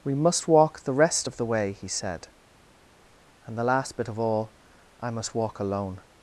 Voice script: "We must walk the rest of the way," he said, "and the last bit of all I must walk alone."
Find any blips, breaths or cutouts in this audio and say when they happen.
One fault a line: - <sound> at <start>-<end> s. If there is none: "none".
none